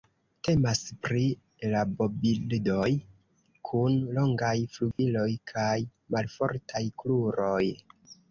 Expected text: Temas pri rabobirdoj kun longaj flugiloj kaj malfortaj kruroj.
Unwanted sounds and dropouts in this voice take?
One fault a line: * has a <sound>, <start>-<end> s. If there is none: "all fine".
* has a dropout, 4.9-5.0 s